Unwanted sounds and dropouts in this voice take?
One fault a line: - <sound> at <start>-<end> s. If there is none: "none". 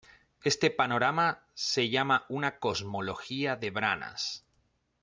none